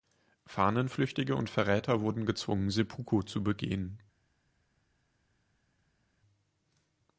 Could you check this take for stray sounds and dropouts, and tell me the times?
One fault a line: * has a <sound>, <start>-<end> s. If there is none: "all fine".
all fine